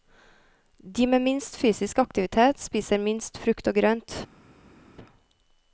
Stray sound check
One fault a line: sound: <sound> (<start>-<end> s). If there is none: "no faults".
no faults